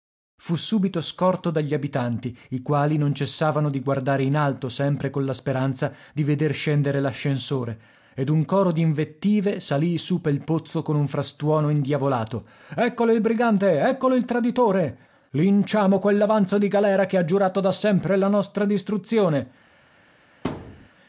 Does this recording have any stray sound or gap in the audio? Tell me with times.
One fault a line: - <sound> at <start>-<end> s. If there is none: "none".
- thud at 20.4-20.9 s